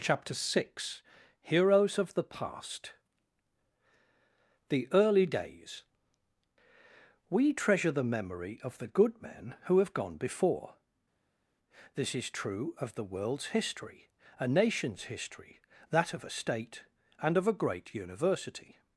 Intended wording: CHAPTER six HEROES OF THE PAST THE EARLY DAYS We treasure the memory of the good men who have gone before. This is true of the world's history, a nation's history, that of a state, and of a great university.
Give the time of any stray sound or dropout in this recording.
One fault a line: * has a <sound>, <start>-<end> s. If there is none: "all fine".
all fine